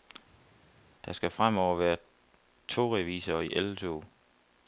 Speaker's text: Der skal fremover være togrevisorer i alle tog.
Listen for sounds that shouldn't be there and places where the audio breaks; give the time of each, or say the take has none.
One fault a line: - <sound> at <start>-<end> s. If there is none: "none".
none